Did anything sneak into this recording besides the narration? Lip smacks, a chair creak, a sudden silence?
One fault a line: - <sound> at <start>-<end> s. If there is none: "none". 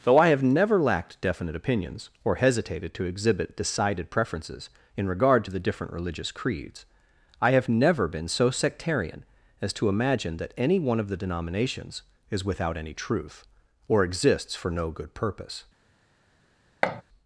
- thud at 16.8-17.0 s